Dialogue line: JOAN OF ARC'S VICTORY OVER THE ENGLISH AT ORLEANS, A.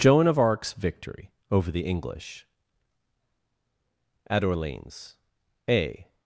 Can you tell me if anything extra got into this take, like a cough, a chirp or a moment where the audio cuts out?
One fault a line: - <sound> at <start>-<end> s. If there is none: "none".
none